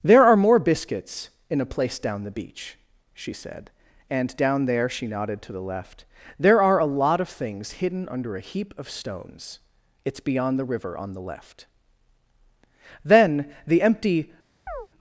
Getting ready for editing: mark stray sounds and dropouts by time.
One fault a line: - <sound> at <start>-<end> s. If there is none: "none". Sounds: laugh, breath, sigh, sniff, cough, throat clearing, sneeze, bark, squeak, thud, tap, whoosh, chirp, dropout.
- chirp at 14.7-14.9 s